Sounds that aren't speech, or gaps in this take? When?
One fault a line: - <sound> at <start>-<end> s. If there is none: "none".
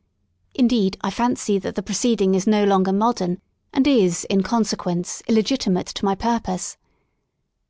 none